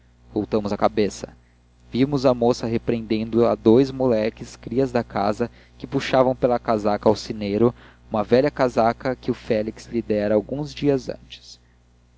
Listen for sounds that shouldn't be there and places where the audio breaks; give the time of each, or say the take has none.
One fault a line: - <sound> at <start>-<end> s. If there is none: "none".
none